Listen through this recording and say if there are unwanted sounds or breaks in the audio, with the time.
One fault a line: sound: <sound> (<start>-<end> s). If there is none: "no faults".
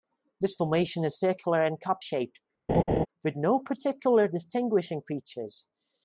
sound: laugh (2.7-3.1 s)